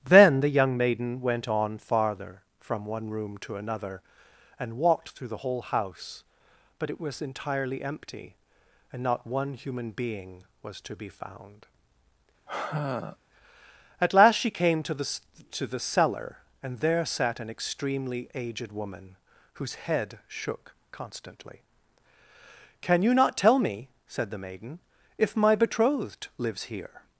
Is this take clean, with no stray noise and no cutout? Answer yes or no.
no